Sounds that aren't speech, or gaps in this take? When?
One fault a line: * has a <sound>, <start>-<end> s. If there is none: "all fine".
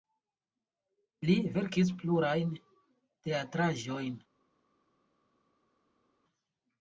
all fine